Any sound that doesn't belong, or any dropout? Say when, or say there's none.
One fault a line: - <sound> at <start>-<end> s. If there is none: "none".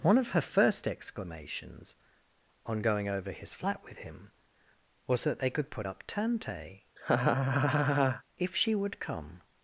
- laugh at 7.0-8.2 s